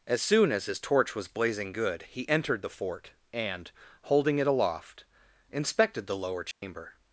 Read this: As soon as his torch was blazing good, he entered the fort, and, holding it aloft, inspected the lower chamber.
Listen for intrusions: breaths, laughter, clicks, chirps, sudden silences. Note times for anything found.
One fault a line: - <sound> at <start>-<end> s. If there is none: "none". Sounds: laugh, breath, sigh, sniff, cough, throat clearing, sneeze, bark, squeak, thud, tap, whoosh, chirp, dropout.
- dropout at 6.5-6.6 s